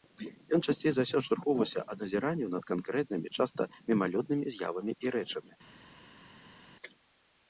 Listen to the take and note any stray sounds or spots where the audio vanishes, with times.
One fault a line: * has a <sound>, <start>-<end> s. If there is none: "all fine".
all fine